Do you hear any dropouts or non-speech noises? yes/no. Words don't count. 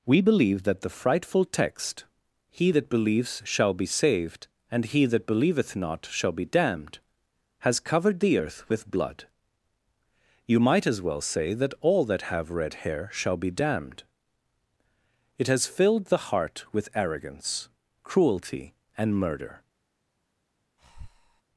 yes